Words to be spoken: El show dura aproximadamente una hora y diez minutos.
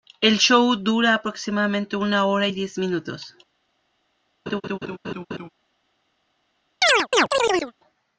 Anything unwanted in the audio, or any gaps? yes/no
yes